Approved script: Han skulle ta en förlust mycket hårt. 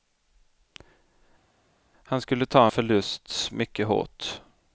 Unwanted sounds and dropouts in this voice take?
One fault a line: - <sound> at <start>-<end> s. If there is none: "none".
none